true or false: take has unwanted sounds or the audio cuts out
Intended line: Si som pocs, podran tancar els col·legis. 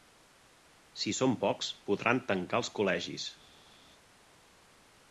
false